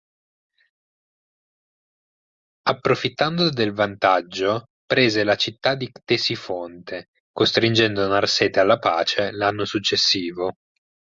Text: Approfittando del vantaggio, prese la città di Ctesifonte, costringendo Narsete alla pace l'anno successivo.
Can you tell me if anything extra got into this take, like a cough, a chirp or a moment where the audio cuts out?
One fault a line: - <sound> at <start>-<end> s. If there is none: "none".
none